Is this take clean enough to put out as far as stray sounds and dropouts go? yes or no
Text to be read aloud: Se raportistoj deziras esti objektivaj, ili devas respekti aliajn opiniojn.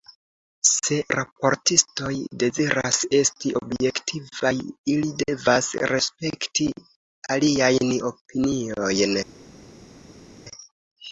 yes